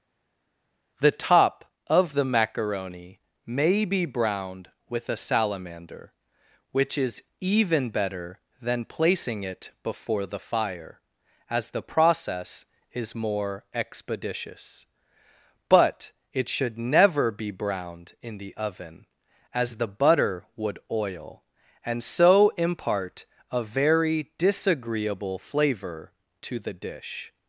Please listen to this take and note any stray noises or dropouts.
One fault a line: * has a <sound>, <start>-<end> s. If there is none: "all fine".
all fine